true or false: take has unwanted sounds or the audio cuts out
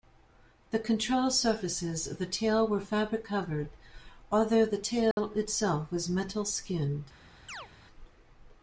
true